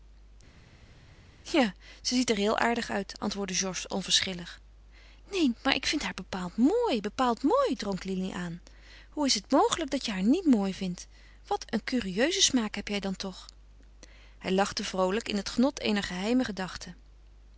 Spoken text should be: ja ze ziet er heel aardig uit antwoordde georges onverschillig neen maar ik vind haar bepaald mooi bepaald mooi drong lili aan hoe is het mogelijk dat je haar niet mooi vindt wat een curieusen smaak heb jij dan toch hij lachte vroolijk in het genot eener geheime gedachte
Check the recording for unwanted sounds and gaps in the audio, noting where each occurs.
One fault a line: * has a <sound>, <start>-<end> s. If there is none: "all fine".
all fine